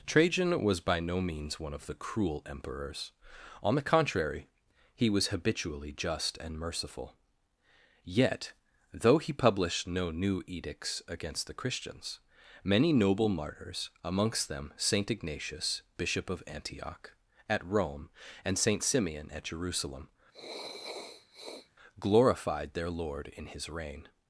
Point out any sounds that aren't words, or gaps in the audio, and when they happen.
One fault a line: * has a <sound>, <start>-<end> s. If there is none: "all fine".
* has a sniff, 20.3-21.7 s